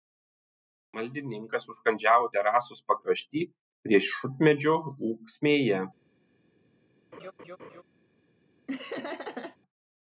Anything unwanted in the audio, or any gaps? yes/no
yes